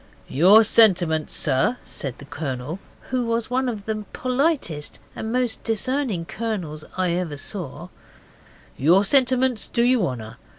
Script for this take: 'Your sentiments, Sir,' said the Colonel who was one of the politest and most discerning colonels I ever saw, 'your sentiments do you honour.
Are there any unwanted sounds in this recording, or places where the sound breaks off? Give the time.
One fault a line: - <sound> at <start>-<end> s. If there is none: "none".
none